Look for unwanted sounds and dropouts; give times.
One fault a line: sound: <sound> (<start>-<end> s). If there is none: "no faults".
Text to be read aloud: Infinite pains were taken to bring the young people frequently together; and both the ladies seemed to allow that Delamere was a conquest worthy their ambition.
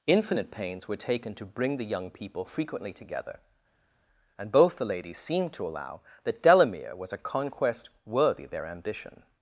no faults